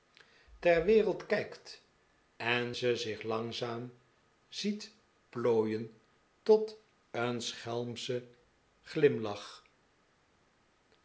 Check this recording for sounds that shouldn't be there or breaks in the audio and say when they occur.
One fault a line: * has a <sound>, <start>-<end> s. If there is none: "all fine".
all fine